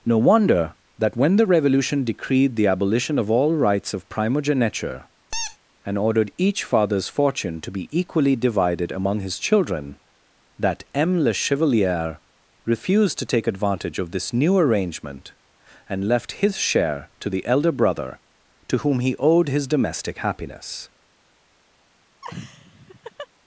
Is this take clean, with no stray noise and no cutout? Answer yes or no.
no